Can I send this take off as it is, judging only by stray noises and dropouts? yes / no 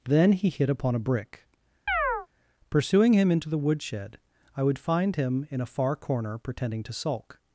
no